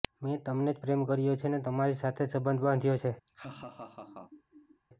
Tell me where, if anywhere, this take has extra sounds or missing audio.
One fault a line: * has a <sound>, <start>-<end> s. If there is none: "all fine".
* has a laugh, 3.3-4.8 s